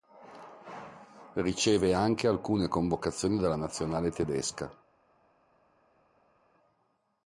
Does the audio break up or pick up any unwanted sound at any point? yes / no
no